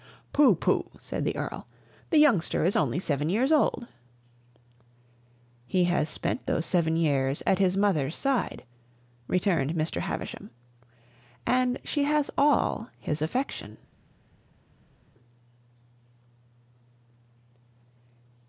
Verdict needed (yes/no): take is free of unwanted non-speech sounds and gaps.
yes